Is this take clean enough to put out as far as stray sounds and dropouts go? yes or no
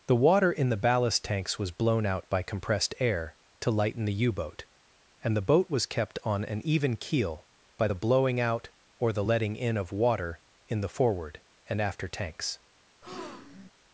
no